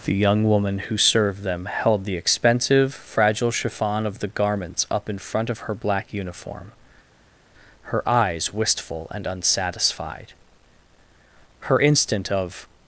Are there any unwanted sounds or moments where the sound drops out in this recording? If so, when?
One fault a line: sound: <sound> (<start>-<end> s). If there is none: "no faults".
no faults